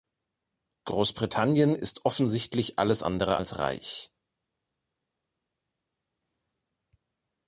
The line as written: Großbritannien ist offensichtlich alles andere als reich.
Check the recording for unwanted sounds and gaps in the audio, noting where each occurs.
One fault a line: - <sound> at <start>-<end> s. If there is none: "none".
none